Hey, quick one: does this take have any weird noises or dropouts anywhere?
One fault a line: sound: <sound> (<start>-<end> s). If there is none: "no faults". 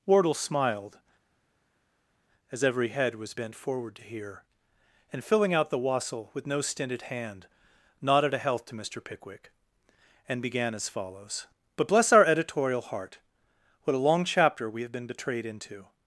no faults